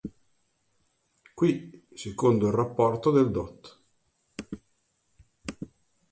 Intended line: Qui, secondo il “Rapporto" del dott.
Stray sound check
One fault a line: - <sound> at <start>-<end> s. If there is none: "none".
none